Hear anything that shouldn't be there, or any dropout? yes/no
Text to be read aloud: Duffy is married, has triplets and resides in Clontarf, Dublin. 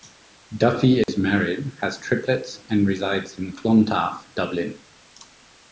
yes